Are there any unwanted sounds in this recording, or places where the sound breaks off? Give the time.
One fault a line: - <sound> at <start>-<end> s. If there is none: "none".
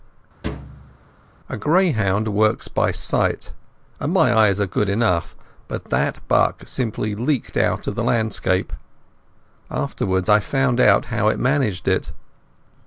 - thud at 0.4-1.0 s